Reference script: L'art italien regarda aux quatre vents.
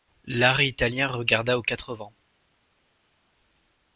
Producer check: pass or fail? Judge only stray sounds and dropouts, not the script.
pass